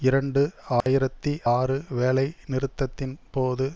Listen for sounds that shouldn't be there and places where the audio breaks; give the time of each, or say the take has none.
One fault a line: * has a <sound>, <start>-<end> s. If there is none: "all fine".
* has a dropout, 0.8-0.9 s